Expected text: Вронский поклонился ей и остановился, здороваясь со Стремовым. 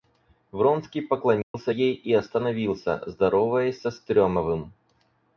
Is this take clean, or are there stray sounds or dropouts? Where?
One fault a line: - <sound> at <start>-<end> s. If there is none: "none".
- dropout at 1.4-1.5 s